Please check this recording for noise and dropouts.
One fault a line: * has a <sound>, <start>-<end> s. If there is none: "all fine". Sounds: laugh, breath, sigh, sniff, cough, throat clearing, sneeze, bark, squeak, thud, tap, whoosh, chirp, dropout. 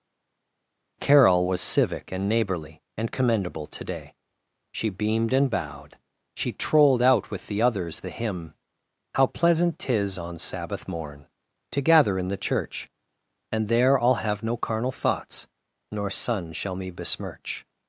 all fine